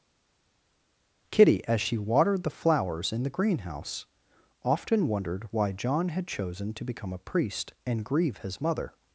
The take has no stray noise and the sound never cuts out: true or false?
true